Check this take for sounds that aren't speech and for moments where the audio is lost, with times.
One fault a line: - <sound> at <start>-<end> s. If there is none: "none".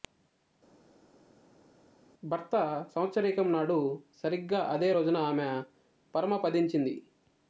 none